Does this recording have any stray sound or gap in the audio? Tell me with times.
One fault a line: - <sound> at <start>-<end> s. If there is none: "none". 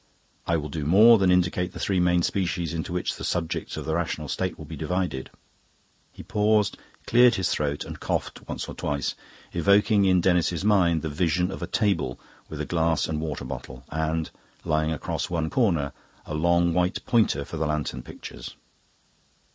none